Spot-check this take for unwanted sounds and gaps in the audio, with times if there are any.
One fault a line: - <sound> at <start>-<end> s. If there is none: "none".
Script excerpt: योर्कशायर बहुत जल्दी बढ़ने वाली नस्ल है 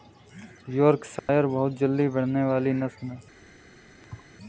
- dropout at 1.2-1.3 s
- thud at 4.0-4.3 s